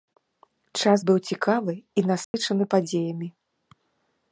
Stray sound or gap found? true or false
true